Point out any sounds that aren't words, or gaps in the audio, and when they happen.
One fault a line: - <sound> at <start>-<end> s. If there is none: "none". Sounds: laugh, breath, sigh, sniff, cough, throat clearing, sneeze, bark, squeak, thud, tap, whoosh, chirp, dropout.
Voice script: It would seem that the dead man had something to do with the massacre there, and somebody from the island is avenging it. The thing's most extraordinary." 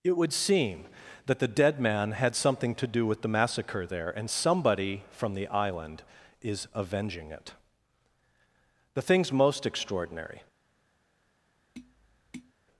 - tap at 11.7-12.5 s